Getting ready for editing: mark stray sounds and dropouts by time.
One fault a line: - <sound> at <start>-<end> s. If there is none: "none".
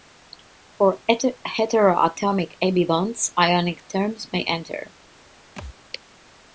- thud at 5.6-5.8 s